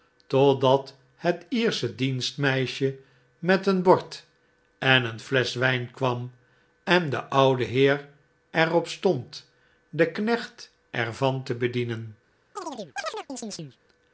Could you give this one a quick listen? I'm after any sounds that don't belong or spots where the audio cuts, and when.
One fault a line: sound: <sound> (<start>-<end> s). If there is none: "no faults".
sound: chirp (12.6-13.8 s)